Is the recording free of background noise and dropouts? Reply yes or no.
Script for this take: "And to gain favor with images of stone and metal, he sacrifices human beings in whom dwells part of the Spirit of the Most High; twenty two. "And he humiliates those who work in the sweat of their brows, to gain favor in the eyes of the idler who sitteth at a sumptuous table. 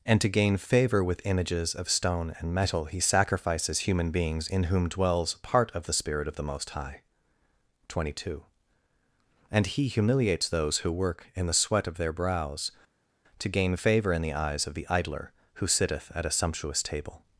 yes